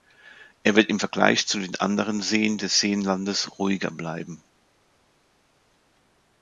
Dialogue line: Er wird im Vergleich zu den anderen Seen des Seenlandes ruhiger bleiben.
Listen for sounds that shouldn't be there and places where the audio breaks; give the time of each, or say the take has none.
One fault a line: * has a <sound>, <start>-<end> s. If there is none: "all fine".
all fine